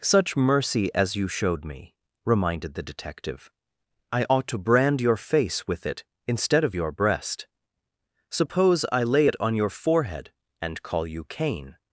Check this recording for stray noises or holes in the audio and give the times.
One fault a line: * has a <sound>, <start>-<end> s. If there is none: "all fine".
all fine